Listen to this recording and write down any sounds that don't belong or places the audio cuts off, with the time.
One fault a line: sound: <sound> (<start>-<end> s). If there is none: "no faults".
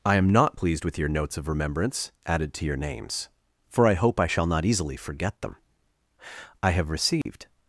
sound: dropout (7.2-7.3 s)